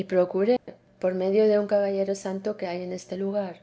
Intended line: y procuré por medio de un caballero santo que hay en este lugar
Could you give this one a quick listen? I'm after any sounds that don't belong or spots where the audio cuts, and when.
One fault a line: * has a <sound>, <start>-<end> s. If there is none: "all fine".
* has a dropout, 0.6-0.7 s